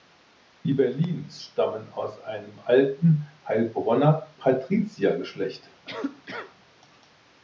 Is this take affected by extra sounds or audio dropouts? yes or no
yes